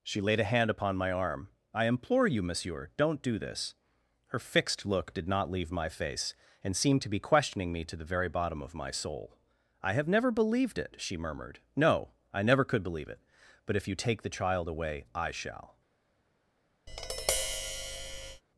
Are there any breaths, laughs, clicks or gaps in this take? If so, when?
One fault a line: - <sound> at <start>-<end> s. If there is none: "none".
- tap at 16.9-18.4 s